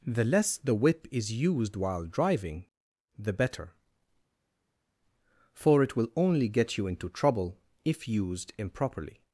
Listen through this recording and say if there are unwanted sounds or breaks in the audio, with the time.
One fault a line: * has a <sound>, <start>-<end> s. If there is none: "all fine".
all fine